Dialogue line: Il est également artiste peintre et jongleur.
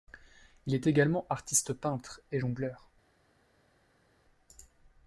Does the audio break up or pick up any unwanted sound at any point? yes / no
no